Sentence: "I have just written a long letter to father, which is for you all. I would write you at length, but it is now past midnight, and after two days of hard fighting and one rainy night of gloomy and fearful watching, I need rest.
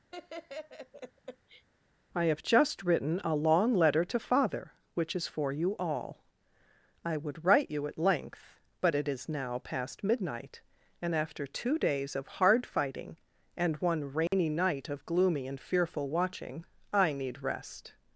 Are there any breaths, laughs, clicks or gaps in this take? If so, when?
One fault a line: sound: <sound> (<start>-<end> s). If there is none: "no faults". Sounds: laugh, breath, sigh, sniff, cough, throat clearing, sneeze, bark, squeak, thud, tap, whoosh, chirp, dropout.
sound: laugh (0.1-1.7 s)
sound: dropout (14.3-14.3 s)